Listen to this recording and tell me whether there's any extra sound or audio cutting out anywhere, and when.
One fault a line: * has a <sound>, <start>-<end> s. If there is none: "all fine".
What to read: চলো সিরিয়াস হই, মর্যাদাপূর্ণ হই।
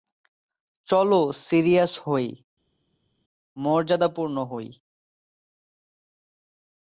all fine